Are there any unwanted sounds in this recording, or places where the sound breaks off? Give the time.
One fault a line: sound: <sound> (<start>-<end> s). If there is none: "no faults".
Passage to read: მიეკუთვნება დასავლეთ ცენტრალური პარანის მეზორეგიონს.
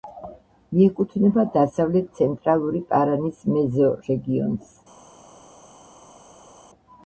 no faults